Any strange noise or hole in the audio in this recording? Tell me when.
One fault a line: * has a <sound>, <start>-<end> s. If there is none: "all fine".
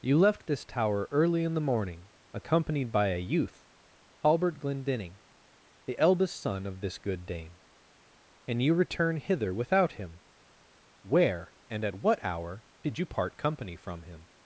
all fine